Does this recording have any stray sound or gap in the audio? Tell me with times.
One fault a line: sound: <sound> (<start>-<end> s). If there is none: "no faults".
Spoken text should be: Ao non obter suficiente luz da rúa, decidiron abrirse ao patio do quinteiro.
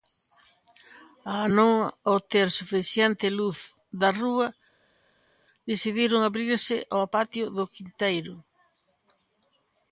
no faults